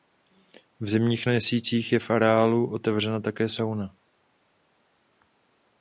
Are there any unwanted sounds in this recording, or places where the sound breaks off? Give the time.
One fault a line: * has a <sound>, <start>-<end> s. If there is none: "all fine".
all fine